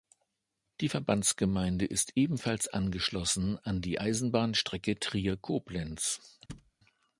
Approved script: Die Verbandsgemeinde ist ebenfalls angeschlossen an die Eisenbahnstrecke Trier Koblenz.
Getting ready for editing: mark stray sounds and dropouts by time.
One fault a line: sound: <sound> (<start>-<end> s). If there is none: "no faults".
sound: thud (6.5-6.7 s)